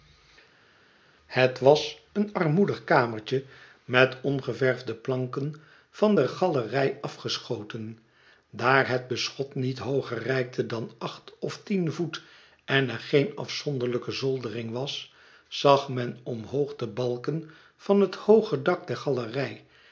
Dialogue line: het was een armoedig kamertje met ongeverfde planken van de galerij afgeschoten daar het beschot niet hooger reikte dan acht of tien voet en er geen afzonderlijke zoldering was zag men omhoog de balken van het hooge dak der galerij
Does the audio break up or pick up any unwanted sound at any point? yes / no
no